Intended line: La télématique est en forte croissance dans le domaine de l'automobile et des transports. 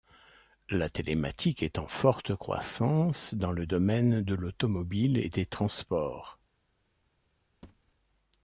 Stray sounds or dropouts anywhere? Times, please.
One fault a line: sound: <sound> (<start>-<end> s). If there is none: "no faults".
sound: thud (7.6-7.9 s)